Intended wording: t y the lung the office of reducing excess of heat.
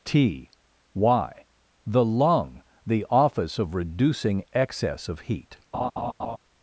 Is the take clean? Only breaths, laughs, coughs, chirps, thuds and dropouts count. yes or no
no